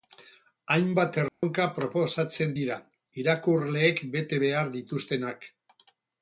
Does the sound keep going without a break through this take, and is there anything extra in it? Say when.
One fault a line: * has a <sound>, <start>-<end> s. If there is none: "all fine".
* has a dropout, 1.3-1.4 s